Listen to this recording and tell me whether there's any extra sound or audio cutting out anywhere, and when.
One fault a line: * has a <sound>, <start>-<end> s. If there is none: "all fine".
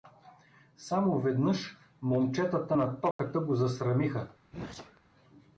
* has a dropout, 3.1-3.2 s
* has a sneeze, 4.5-5.0 s